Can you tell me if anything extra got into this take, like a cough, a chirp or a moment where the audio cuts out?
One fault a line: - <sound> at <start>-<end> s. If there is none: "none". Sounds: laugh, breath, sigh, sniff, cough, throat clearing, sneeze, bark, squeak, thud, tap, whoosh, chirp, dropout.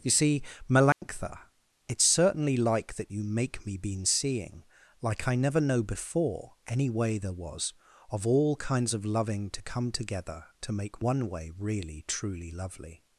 - dropout at 0.9-1.0 s